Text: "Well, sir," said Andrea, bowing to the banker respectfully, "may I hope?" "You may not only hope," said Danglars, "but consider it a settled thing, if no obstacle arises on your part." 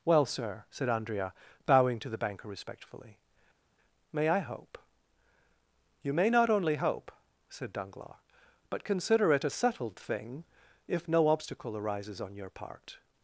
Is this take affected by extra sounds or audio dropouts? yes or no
no